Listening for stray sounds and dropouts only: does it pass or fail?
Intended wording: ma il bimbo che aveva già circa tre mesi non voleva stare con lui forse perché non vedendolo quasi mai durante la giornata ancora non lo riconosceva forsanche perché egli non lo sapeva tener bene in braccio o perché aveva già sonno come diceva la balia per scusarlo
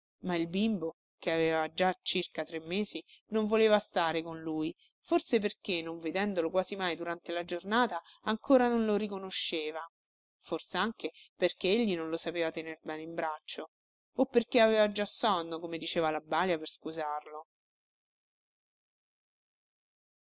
pass